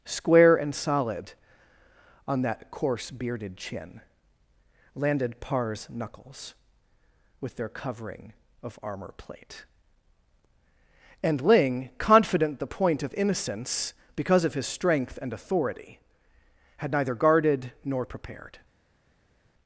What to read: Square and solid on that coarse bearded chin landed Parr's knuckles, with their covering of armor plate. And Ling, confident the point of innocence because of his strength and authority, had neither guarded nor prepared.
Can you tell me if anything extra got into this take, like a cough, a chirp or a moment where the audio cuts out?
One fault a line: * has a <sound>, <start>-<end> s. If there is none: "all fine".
all fine